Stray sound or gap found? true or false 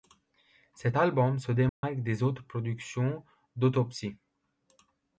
true